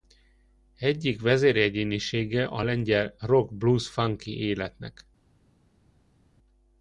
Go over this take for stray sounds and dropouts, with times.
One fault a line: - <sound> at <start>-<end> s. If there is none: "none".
none